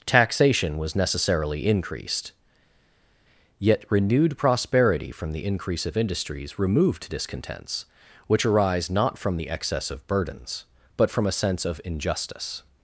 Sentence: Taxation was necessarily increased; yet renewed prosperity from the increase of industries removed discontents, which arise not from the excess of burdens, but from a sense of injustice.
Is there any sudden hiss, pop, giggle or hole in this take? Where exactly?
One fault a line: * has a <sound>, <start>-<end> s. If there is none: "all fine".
all fine